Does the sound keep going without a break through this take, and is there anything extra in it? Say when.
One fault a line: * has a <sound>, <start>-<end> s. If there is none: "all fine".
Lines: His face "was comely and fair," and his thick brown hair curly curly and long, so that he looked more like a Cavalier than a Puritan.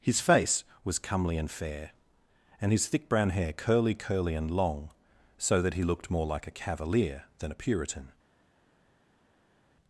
all fine